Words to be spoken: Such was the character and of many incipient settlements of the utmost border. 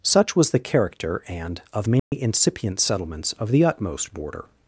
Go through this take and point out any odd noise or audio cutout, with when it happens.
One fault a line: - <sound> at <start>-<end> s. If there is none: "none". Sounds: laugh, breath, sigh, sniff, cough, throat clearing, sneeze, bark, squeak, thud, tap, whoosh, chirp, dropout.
- dropout at 2.0-2.1 s